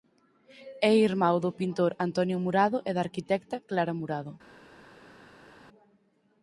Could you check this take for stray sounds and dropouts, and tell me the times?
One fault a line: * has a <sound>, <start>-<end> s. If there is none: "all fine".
all fine